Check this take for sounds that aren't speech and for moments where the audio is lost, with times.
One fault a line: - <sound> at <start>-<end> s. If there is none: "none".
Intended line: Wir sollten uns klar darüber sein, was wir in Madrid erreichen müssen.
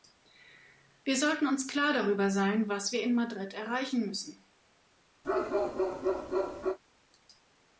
- bark at 5.2-6.8 s